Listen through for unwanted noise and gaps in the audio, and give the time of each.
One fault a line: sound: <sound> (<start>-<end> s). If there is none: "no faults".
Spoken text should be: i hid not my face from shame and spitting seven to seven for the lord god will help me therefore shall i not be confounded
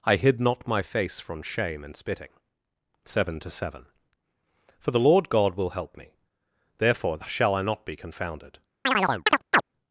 sound: chirp (8.8-9.6 s)